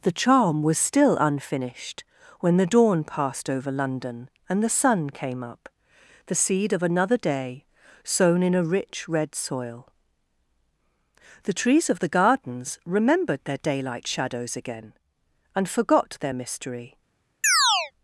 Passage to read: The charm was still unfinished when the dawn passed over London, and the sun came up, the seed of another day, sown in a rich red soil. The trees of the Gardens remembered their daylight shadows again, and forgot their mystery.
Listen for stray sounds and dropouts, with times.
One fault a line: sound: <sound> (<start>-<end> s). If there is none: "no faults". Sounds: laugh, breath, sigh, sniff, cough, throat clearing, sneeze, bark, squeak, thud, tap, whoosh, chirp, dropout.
sound: chirp (17.4-17.9 s)